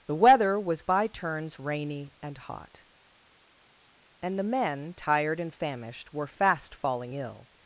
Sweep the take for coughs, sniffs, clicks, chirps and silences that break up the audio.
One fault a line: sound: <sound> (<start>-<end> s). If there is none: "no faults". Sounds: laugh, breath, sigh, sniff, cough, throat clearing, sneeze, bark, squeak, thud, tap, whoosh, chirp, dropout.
no faults